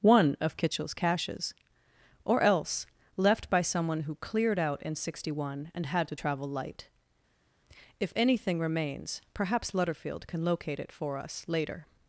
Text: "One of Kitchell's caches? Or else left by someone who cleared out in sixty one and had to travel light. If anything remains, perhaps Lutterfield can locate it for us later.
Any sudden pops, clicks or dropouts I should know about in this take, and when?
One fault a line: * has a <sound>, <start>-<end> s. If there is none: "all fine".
all fine